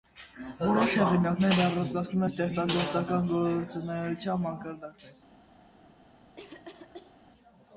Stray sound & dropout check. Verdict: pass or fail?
fail